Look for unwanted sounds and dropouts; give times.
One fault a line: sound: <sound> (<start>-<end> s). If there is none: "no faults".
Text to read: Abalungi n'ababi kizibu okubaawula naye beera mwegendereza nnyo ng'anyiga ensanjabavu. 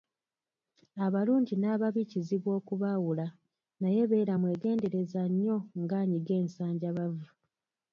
no faults